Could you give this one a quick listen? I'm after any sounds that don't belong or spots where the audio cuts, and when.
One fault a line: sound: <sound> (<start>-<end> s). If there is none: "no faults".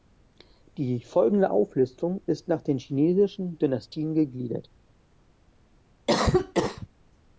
sound: cough (6.1-6.9 s)